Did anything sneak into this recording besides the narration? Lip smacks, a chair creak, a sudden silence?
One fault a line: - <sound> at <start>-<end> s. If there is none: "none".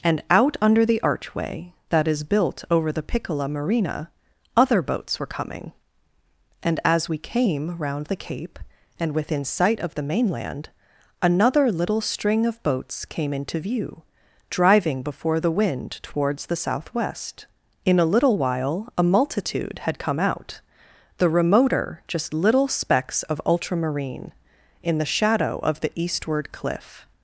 none